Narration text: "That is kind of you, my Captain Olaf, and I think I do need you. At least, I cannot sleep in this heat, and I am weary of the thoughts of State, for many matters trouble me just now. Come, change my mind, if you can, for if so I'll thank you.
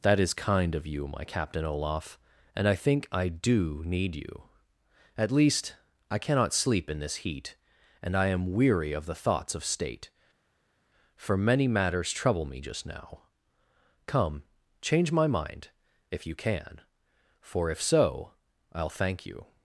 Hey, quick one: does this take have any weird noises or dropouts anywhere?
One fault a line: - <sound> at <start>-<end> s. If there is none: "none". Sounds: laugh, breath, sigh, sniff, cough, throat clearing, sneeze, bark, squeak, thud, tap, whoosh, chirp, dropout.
none